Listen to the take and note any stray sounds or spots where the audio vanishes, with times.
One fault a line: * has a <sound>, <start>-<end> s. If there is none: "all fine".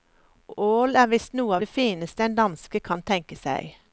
all fine